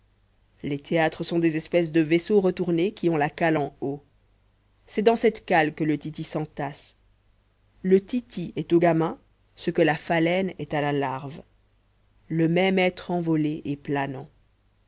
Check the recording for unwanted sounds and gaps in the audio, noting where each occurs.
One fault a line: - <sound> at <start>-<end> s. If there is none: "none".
none